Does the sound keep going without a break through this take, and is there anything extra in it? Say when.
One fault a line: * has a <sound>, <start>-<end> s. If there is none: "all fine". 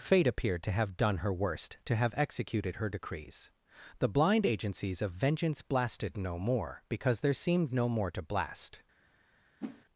* has a whoosh, 9.6-9.8 s